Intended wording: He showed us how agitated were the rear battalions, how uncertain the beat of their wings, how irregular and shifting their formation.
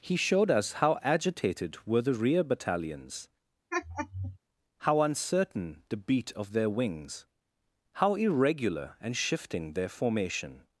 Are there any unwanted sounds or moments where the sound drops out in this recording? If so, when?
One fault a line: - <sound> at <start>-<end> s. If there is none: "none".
- laugh at 3.7-4.4 s